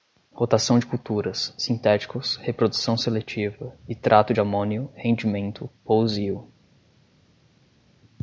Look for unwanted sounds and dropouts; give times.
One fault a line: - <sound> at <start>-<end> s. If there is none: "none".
none